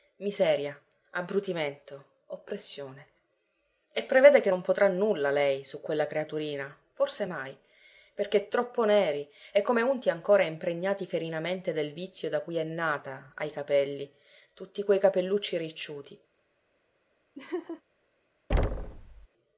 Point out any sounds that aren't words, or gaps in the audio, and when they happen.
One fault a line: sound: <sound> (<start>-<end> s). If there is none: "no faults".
sound: laugh (17.4-17.8 s)
sound: thud (18.5-19.3 s)